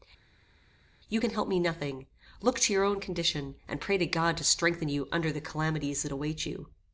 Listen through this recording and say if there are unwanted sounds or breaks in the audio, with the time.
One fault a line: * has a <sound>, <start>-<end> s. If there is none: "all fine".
all fine